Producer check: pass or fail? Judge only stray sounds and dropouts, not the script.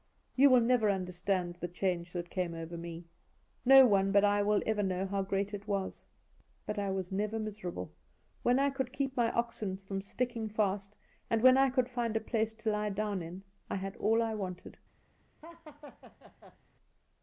fail